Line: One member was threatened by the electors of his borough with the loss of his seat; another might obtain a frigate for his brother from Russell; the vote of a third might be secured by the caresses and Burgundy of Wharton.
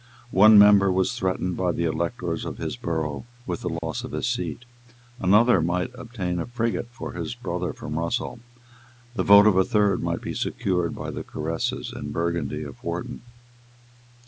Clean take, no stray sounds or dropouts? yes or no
no